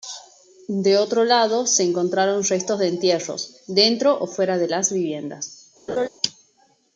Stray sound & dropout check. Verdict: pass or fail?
fail